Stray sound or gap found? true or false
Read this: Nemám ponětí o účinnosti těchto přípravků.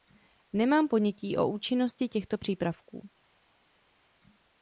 false